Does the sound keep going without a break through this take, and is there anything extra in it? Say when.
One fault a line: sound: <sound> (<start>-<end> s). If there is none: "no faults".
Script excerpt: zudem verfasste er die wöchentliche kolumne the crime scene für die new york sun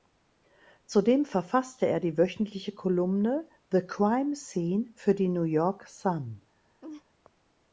sound: laugh (6.8-7.0 s)